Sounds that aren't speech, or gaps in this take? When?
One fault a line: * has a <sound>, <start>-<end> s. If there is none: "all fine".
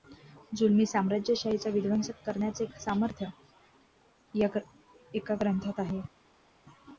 all fine